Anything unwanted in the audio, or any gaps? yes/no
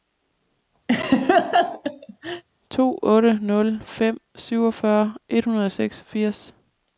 yes